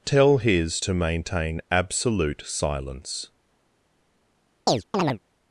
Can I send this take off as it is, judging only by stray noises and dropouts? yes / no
no